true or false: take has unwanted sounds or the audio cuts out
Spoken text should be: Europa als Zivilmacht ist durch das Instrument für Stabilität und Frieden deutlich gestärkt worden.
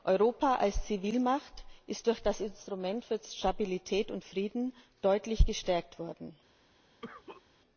true